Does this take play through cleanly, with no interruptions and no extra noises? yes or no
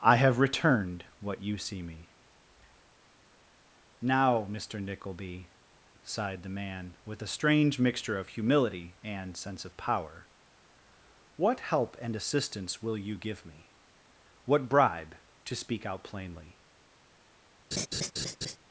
no